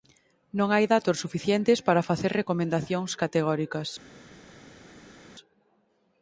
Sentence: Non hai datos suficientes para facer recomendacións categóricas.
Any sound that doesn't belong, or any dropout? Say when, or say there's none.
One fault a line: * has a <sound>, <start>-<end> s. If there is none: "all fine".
all fine